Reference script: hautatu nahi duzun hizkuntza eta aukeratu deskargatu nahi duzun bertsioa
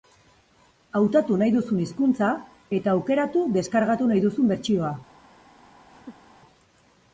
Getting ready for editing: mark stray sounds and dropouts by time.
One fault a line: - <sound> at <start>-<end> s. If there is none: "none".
- laugh at 5.9-6.4 s